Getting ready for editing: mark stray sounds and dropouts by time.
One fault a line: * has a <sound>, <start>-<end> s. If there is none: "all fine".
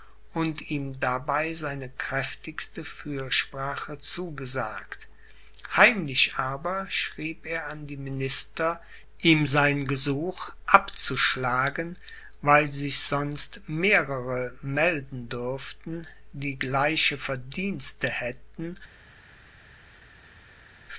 all fine